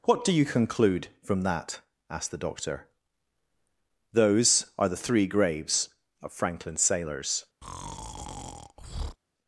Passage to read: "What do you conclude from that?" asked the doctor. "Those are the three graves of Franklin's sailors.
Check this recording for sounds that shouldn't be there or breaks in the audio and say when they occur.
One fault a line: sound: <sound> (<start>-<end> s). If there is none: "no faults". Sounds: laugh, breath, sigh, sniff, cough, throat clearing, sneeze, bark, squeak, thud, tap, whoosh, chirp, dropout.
sound: breath (7.6-9.2 s)